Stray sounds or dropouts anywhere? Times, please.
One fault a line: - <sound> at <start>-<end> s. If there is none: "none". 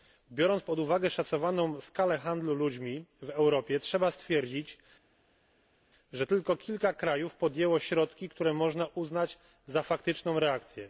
none